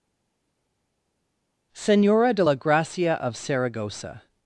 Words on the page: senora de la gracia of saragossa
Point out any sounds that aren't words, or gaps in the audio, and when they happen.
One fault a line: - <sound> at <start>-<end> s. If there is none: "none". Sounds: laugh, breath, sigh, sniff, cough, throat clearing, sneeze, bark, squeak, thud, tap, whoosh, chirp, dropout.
none